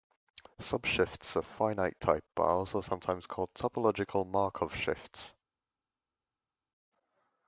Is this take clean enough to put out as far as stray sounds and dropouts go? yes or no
yes